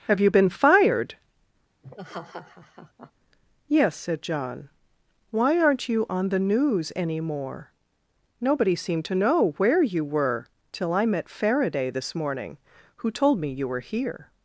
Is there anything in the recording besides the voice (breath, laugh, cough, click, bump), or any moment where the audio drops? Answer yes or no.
yes